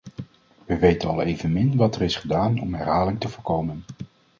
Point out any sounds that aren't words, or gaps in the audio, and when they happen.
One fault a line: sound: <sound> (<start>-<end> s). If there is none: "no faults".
no faults